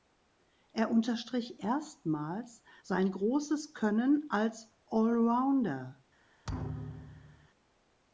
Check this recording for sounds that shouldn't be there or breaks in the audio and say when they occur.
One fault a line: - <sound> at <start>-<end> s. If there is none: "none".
- thud at 6.4-7.5 s